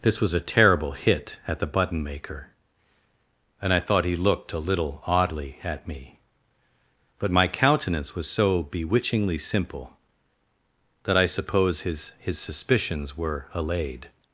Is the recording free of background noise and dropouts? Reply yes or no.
yes